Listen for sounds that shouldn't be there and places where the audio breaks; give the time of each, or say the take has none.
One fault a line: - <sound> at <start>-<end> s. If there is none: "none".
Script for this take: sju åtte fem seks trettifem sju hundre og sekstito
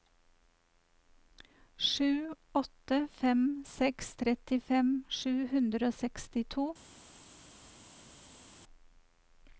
none